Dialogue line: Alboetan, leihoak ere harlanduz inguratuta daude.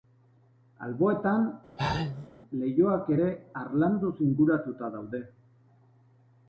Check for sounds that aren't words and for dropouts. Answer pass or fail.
fail